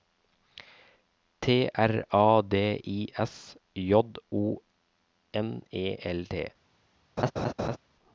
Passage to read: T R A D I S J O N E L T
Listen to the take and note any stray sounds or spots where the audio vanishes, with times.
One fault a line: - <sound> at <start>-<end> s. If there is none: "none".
- laugh at 7.2-7.8 s